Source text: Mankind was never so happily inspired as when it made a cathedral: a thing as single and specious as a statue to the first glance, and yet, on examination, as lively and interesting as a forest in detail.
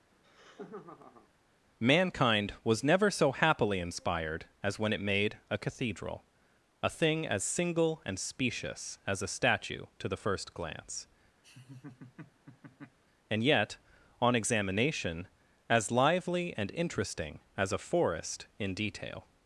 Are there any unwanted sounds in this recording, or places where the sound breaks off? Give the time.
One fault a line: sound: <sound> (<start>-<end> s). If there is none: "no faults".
sound: laugh (0.1-1.3 s)
sound: laugh (11.4-13.0 s)